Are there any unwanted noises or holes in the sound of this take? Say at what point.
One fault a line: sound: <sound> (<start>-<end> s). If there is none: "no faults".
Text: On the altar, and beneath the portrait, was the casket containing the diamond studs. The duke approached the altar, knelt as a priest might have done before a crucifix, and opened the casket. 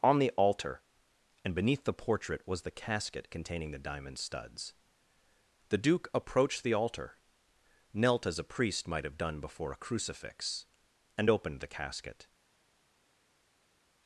no faults